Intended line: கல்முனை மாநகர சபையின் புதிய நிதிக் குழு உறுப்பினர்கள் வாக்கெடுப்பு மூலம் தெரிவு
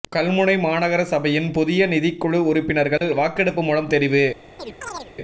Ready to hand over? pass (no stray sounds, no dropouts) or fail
fail